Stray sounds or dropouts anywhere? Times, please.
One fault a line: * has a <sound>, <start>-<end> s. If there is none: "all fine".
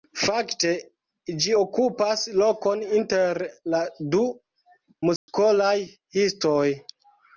* has a dropout, 5.2-5.3 s